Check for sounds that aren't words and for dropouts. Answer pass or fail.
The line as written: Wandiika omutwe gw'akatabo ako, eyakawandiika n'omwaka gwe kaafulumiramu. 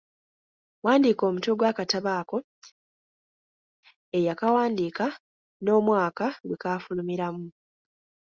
pass